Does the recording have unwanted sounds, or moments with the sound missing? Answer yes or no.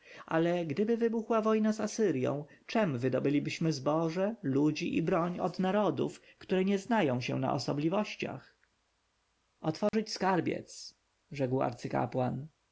yes